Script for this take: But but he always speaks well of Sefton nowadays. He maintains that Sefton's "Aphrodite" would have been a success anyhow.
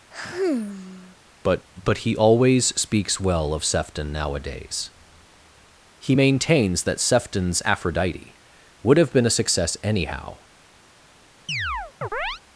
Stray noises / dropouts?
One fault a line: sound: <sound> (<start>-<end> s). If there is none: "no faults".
sound: sigh (0.1-1.2 s)
sound: chirp (11.5-12.4 s)